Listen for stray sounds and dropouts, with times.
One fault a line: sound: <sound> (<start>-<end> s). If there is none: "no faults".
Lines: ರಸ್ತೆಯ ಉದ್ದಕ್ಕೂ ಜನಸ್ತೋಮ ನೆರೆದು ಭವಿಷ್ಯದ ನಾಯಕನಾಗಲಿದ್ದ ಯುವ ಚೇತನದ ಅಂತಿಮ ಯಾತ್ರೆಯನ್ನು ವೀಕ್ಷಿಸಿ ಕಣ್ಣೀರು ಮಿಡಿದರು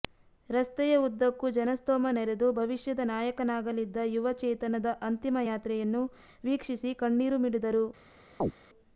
sound: chirp (8.4-8.5 s)